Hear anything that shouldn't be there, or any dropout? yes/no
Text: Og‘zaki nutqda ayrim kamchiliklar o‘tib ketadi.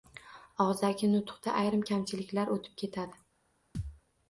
yes